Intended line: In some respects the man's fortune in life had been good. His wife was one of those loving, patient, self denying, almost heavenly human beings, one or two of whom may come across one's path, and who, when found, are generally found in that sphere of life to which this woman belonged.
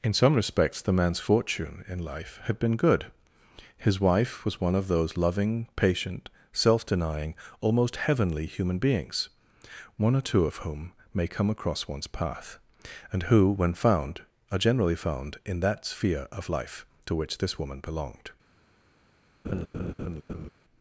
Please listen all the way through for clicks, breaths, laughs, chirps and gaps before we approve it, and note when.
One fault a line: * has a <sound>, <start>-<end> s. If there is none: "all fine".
* has a laugh, 19.4-20.5 s